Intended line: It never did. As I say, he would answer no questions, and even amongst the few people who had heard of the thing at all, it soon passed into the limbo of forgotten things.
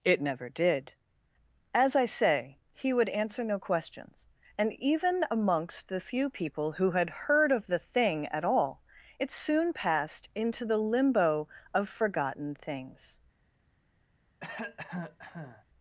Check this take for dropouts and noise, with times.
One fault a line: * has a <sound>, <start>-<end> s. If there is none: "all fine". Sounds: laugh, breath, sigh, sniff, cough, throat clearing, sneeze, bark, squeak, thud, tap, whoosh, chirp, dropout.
* has a cough, 14.4-15.6 s